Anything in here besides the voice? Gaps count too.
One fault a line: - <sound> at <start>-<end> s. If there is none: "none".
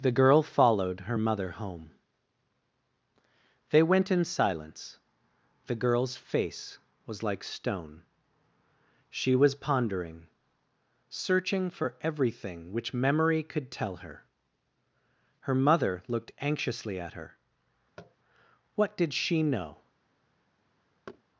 - tap at 18.0-18.2 s
- thud at 21.1-21.2 s